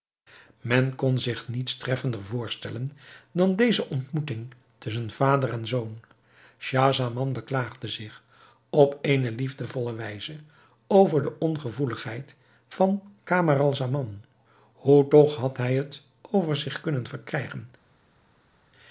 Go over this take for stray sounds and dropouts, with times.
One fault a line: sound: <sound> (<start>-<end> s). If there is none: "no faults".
no faults